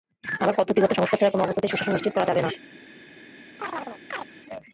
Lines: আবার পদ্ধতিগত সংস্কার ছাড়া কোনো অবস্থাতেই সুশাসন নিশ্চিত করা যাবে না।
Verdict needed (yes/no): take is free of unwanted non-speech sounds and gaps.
no